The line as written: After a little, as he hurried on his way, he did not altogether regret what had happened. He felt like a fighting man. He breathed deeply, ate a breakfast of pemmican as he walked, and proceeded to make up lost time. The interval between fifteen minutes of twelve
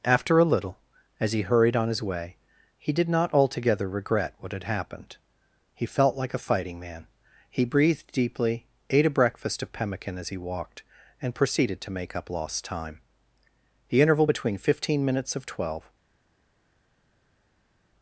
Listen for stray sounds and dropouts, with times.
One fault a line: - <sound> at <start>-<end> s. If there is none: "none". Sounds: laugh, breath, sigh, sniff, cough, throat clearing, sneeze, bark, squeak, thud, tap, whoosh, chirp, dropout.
none